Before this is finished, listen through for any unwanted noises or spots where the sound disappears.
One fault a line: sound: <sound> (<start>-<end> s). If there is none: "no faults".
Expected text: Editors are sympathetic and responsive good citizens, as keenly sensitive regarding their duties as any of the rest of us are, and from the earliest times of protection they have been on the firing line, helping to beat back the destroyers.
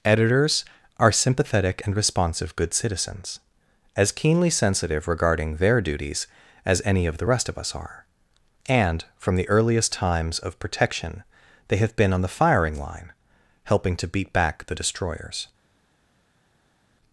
no faults